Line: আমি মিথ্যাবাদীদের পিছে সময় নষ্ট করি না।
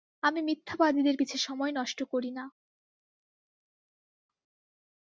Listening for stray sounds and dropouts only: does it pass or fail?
pass